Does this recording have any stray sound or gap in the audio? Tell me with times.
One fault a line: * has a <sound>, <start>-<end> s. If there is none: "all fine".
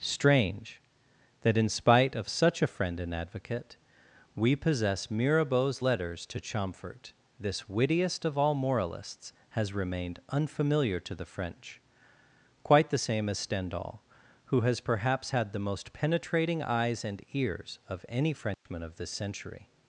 * has a dropout, 18.5-18.7 s